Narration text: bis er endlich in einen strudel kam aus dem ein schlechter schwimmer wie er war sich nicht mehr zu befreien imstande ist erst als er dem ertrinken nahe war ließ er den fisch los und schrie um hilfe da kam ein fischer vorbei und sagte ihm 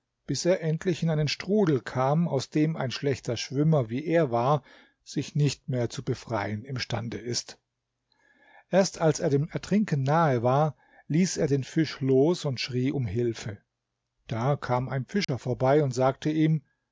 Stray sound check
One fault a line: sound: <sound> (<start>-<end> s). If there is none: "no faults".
sound: dropout (15.2-15.3 s)